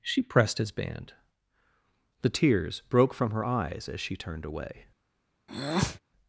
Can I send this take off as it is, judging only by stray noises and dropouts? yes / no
no